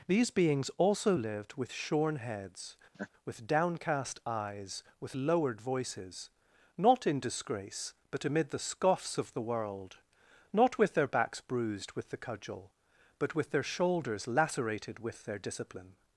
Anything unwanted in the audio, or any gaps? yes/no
yes